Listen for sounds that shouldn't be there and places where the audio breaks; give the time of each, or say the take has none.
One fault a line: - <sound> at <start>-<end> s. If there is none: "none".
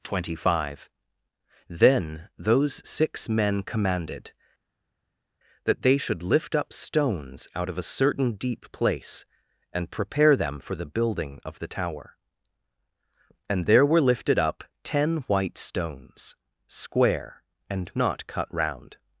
none